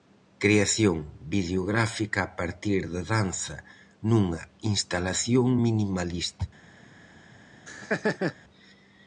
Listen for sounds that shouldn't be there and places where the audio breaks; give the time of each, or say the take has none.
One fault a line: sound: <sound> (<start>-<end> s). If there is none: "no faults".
sound: laugh (7.7-8.3 s)